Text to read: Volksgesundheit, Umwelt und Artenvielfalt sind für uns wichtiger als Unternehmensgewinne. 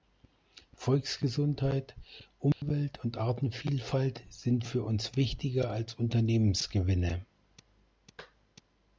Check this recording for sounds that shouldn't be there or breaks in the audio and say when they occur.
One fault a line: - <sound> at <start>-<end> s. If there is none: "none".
- dropout at 2.5-2.6 s